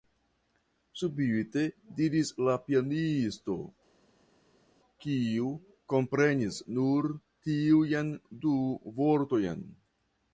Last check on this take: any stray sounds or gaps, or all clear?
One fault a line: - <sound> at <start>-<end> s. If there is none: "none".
none